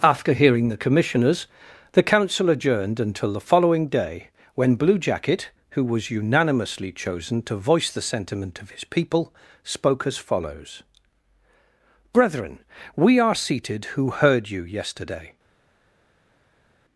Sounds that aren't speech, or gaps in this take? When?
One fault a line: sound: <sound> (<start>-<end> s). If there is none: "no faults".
no faults